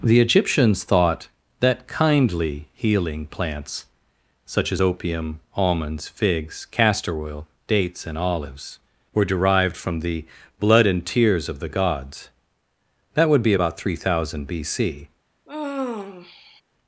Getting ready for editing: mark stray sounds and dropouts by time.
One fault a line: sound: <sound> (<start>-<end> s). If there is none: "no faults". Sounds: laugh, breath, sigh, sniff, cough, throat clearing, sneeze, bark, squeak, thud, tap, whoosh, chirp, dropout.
sound: sigh (15.5-16.6 s)